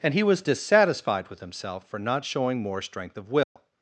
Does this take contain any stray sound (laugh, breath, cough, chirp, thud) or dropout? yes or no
yes